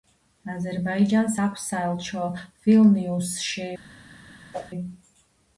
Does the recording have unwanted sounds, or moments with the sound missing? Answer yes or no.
yes